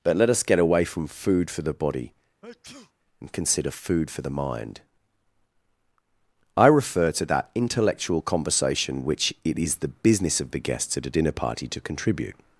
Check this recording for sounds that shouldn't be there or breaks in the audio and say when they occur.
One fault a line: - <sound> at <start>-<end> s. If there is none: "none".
- sneeze at 2.4-2.9 s